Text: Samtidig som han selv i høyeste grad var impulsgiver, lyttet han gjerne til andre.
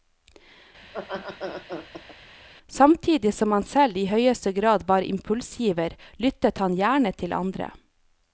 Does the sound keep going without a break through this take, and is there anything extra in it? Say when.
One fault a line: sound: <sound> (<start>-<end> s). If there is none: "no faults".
sound: laugh (0.8-2.2 s)